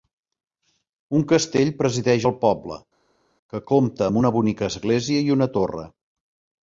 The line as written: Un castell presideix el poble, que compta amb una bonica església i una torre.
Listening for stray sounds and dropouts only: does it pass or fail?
pass